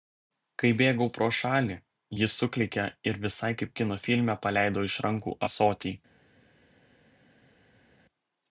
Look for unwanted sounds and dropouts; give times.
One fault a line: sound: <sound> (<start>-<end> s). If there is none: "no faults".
no faults